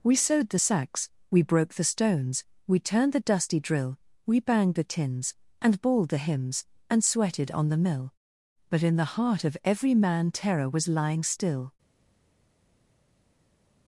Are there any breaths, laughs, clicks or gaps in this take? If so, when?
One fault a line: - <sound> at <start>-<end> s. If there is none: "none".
none